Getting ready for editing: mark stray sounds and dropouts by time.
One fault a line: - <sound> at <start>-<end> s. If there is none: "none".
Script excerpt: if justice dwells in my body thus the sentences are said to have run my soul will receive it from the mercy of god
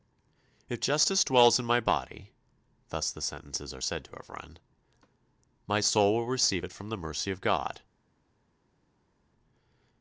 none